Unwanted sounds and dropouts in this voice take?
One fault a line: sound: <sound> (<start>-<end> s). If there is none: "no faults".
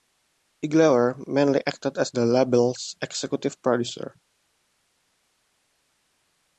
no faults